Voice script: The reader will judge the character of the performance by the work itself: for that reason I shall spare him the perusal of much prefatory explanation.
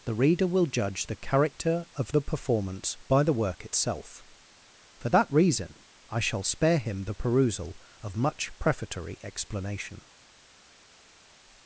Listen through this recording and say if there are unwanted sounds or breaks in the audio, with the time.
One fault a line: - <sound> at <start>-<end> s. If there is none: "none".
none